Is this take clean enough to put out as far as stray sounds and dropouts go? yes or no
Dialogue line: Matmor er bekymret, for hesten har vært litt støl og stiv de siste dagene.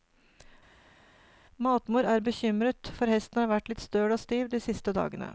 yes